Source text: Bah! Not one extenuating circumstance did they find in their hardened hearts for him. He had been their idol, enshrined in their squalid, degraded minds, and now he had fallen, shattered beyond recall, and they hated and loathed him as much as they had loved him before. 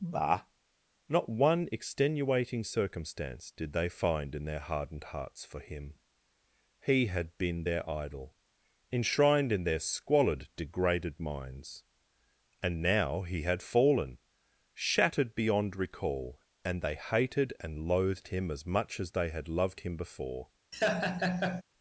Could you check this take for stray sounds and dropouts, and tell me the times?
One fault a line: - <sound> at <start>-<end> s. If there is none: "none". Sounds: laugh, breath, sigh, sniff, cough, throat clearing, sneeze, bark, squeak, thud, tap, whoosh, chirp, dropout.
- laugh at 20.7-21.6 s